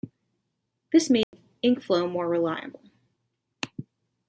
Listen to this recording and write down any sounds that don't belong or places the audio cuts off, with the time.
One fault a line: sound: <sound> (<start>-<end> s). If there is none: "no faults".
sound: dropout (1.2-1.3 s)